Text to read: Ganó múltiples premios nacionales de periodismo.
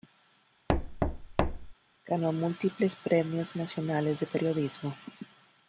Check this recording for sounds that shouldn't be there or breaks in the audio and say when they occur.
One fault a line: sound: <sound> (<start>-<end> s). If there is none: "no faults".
sound: thud (0.7-1.7 s)